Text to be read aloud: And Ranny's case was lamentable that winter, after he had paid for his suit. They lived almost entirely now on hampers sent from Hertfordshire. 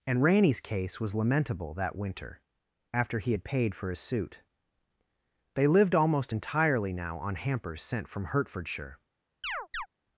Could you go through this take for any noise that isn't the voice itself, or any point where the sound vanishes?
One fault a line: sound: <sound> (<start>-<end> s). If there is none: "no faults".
sound: chirp (9.4-9.9 s)